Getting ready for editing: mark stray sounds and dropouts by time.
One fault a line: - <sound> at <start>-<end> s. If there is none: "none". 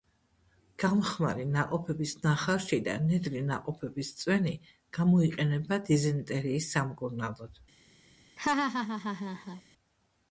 - laugh at 8.4-9.6 s